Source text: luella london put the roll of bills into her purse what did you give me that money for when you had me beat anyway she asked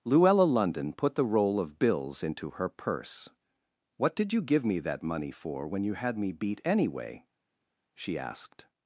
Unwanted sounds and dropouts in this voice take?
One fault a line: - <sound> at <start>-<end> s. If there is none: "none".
none